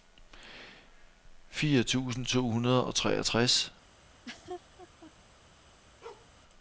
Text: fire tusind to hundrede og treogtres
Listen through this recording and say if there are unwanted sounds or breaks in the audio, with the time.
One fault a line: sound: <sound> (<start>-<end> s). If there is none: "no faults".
sound: laugh (4.0-5.1 s)
sound: bark (6.0-6.3 s)